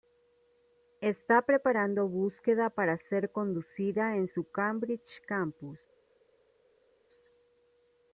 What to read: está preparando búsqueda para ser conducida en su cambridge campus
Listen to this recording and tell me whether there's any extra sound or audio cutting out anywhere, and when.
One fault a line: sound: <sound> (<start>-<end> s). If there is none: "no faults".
no faults